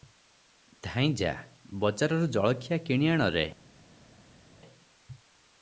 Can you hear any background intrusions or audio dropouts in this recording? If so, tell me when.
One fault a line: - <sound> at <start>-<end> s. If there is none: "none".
none